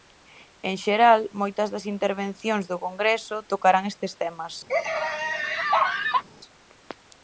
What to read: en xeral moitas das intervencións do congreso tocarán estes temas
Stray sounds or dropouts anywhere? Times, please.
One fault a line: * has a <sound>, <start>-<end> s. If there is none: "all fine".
* has a laugh, 4.7-6.2 s